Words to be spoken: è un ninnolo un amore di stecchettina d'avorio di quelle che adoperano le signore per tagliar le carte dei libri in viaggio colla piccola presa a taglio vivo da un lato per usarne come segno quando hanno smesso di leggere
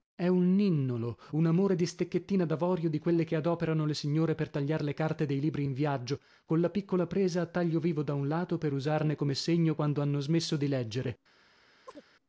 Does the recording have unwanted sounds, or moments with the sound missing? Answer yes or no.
yes